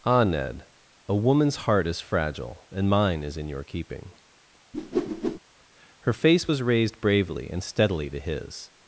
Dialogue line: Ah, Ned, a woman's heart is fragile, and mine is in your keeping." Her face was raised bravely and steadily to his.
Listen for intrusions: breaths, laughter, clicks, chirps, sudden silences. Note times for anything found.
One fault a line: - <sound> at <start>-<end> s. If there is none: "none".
- whoosh at 4.7-5.4 s